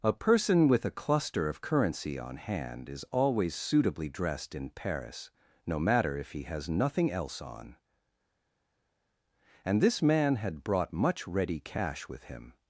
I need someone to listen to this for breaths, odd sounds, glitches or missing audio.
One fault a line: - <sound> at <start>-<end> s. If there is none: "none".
none